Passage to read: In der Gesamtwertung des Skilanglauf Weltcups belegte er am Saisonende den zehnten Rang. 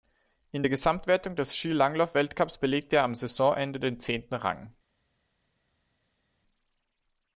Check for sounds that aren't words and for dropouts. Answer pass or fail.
pass